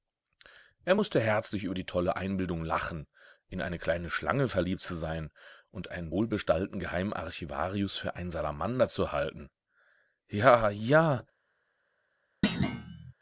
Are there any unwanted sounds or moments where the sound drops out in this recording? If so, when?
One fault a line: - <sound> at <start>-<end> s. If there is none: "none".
- thud at 12.4-13.1 s